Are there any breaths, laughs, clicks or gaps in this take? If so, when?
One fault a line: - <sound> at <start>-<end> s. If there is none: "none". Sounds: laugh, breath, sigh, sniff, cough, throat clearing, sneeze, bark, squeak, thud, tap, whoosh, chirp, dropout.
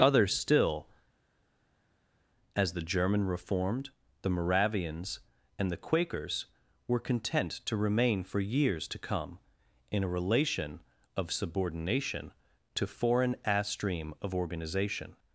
none